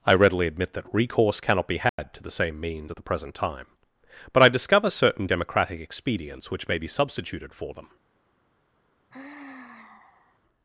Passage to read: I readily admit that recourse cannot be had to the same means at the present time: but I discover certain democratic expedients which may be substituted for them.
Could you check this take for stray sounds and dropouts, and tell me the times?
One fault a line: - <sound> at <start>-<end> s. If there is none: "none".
- dropout at 1.9-2.0 s
- sigh at 9.1-10.4 s